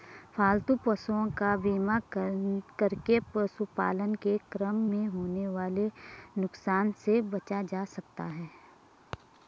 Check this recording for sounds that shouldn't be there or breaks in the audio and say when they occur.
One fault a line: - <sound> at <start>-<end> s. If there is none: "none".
none